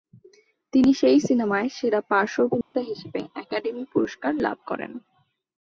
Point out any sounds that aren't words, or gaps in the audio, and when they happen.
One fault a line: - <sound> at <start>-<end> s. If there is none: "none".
- dropout at 2.6-2.7 s